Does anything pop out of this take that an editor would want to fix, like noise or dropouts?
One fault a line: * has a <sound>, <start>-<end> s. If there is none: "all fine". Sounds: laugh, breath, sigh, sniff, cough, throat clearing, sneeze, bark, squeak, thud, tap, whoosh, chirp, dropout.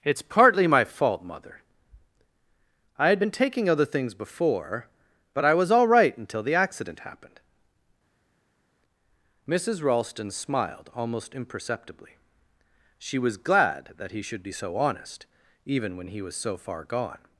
all fine